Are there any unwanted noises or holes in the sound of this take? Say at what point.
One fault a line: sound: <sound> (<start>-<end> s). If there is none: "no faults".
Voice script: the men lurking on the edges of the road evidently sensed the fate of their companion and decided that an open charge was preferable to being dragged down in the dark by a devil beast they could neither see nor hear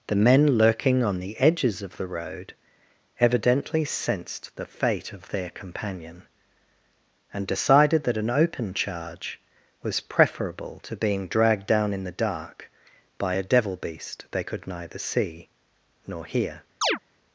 sound: chirp (16.8-17.0 s)